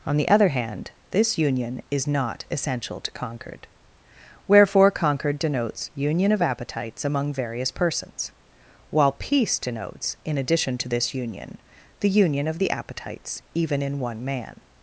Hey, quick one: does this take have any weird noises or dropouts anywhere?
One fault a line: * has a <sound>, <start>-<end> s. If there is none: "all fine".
all fine